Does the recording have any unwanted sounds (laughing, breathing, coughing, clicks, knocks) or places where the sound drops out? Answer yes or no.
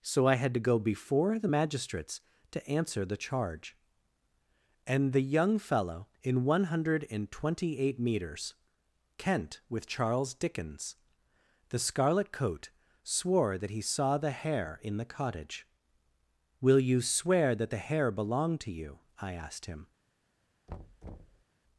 yes